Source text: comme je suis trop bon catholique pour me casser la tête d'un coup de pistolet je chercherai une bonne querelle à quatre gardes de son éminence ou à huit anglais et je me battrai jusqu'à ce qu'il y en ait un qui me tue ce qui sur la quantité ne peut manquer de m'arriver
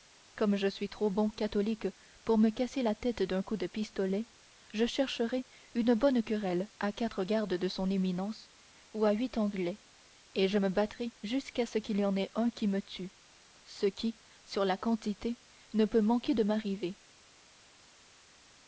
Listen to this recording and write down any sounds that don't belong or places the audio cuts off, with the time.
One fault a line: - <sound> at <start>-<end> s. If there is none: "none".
none